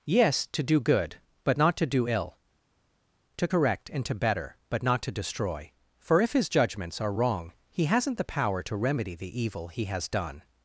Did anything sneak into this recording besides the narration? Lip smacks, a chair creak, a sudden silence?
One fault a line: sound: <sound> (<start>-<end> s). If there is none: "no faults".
no faults